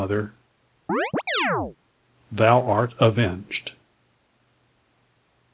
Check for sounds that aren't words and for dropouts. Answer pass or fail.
fail